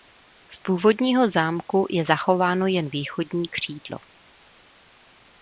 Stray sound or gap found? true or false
false